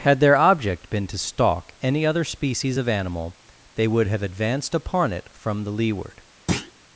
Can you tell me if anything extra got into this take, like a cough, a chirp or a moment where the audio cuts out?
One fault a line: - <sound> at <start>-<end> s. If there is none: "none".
- thud at 6.5-6.7 s